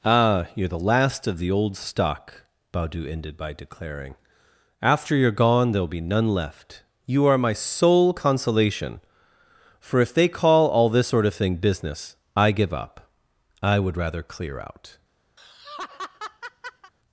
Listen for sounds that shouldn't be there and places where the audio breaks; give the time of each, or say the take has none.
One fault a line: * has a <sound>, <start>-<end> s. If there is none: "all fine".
* has a laugh, 15.4-16.9 s